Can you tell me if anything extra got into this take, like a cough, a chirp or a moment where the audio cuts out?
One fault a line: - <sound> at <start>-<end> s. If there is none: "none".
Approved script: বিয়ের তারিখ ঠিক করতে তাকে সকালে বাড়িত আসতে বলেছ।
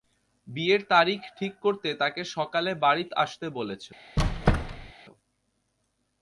- squeak at 4.2-4.9 s